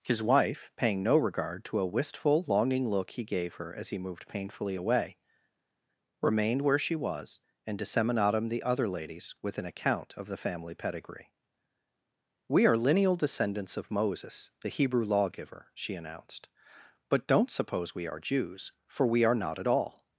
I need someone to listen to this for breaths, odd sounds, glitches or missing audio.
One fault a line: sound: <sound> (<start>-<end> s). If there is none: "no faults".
no faults